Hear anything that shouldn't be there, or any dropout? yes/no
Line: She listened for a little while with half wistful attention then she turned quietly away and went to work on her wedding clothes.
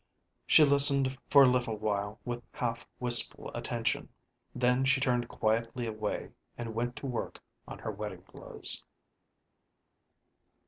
no